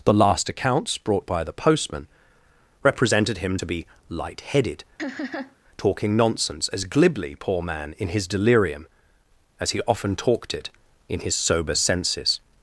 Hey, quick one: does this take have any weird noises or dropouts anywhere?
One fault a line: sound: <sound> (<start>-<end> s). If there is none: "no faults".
sound: laugh (5.0-5.6 s)